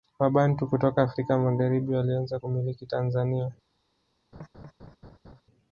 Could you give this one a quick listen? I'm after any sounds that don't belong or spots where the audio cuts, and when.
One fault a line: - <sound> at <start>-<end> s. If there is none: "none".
- laugh at 4.3-5.4 s